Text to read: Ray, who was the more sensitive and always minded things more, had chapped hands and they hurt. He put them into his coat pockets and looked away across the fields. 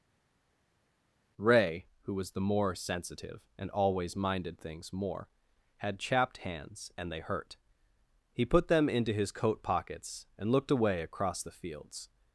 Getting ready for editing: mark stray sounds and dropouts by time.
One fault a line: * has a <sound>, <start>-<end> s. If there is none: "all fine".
all fine